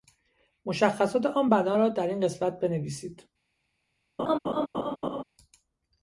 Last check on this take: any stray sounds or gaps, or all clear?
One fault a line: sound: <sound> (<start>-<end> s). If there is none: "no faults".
sound: laugh (4.2-5.2 s)